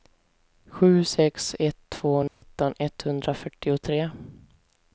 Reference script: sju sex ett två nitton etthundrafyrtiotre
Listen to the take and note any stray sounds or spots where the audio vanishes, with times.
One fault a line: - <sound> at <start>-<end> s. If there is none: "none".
- dropout at 2.3-2.4 s